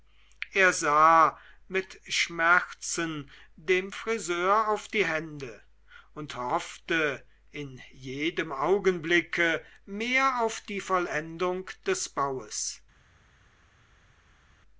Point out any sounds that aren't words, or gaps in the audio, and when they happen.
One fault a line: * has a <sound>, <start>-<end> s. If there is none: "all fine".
all fine